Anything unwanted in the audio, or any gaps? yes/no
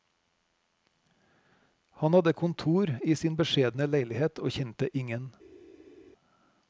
no